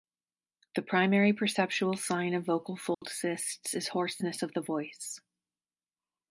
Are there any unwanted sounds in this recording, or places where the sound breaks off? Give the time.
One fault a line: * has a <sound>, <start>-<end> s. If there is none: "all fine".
* has a dropout, 2.9-3.0 s